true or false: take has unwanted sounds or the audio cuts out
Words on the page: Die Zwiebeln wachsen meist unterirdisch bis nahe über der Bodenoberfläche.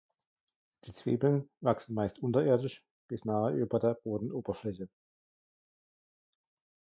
false